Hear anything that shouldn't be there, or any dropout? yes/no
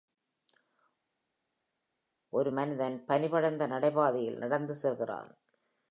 no